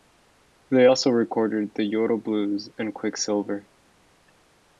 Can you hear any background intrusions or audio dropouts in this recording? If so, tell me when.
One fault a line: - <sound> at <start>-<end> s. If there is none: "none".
none